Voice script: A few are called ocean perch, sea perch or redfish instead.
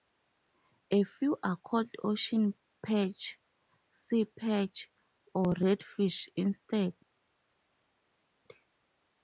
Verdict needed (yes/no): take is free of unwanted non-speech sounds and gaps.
yes